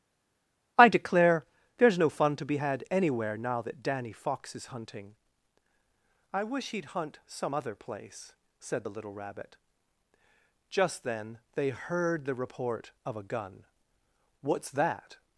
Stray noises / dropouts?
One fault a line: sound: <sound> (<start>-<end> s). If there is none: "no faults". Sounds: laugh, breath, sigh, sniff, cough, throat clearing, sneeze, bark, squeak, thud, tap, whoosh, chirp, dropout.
no faults